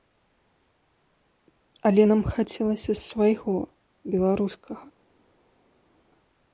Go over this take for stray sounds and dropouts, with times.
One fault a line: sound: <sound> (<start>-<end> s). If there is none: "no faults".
no faults